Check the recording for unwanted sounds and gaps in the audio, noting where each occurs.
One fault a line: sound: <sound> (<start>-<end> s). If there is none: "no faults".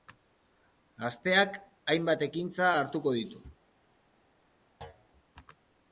sound: thud (4.8-5.1 s)